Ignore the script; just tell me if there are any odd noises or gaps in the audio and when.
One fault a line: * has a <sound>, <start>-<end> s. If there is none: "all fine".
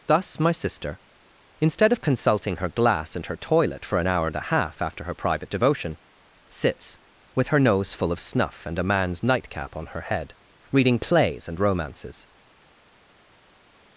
all fine